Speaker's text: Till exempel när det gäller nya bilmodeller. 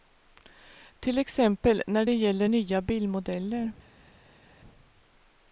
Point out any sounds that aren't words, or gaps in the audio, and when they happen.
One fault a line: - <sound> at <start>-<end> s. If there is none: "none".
none